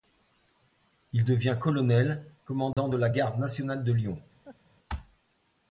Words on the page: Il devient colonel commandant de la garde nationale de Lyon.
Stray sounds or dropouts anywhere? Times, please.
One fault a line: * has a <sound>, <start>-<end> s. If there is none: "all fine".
* has a dropout, 2.7-2.8 s
* has a laugh, 4.4-4.6 s